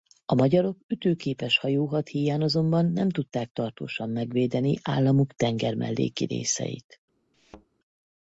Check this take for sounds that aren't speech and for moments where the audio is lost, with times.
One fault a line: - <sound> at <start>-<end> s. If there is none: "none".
- thud at 7.3-7.7 s